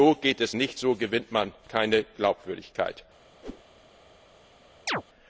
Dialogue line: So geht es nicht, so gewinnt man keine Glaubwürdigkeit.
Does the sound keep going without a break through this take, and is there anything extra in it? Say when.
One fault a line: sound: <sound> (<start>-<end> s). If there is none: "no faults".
sound: whoosh (3.4-3.6 s)
sound: chirp (4.9-5.0 s)